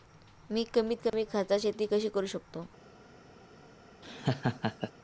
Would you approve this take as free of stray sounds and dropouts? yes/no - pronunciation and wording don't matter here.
no